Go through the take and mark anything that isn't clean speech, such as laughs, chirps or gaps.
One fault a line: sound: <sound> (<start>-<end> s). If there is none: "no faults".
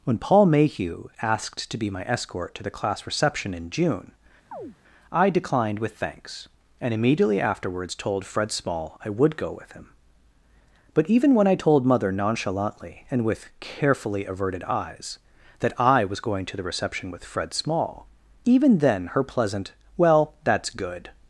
sound: chirp (4.5-4.8 s)